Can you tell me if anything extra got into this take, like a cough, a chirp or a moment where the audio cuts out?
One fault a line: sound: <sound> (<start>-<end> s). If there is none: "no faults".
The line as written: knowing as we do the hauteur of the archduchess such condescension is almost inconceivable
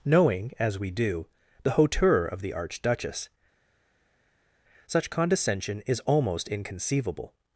no faults